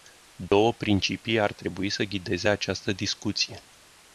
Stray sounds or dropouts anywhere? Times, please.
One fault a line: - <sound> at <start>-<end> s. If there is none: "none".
- dropout at 0.5-0.5 s